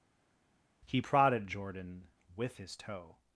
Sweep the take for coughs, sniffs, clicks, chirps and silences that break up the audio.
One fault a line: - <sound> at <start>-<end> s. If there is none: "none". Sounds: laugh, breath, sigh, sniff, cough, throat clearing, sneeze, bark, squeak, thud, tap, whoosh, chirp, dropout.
none